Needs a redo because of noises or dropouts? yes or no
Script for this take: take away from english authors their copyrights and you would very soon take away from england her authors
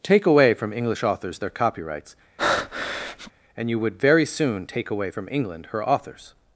yes